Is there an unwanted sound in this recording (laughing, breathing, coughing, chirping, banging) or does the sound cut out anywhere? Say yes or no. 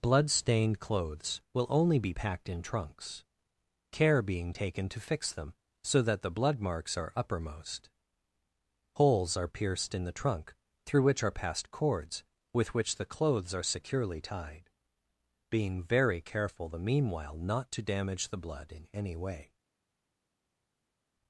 no